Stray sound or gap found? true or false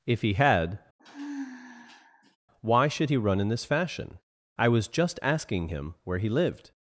true